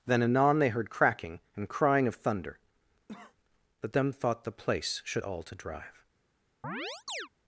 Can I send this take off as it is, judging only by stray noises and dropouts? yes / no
no